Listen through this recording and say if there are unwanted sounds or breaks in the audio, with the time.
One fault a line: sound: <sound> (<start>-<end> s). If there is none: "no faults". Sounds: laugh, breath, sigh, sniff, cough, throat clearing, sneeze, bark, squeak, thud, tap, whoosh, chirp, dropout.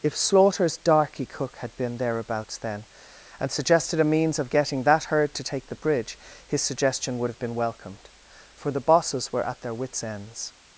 no faults